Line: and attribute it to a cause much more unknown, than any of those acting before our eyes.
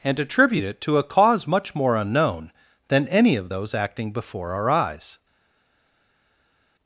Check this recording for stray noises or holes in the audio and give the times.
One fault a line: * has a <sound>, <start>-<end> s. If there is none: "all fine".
all fine